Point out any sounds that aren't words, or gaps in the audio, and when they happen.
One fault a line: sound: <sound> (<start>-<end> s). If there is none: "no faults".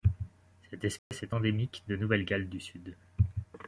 sound: dropout (1.0-1.1 s)